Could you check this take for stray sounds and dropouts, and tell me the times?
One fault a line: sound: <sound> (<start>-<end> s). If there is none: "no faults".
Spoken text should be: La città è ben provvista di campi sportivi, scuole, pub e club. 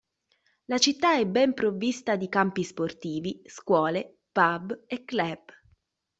no faults